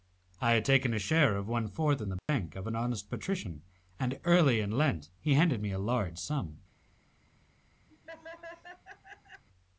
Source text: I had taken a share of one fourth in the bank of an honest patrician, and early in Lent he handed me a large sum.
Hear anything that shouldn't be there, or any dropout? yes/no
yes